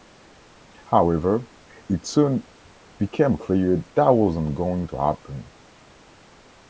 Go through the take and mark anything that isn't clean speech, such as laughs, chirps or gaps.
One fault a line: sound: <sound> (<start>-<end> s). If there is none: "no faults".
no faults